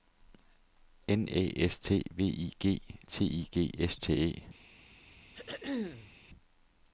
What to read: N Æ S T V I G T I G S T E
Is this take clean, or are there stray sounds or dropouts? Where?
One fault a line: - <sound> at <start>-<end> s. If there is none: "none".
- throat clearing at 5.3-6.1 s